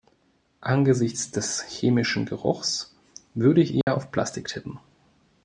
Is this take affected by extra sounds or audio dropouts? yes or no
yes